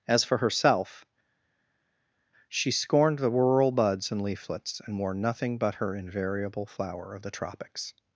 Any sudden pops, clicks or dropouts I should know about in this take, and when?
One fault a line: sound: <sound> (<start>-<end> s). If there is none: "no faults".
no faults